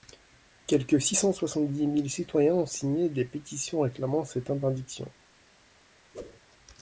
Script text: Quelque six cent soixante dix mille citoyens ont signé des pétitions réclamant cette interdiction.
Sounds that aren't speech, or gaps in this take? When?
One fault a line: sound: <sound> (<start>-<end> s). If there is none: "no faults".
sound: whoosh (6.1-6.4 s)